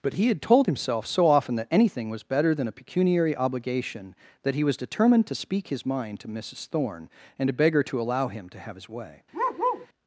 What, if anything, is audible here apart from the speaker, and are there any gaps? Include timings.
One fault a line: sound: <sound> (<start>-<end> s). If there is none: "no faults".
sound: bark (9.3-9.9 s)